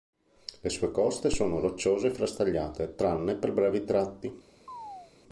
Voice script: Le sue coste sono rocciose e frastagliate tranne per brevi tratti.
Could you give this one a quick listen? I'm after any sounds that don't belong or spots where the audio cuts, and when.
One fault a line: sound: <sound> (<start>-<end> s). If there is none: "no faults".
sound: chirp (4.7-5.1 s)